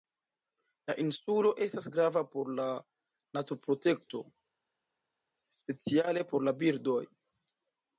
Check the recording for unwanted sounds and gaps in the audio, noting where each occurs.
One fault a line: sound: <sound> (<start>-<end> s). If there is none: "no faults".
no faults